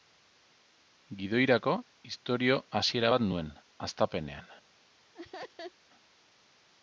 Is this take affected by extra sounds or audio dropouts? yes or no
yes